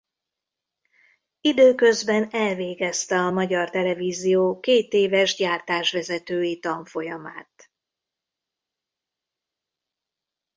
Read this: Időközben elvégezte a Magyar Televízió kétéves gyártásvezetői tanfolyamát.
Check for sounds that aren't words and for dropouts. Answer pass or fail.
pass